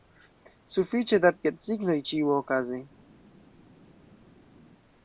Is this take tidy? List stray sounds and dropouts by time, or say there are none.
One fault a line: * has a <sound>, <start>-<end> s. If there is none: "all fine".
all fine